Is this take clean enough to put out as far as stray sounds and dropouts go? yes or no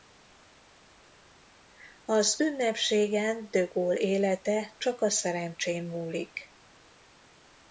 yes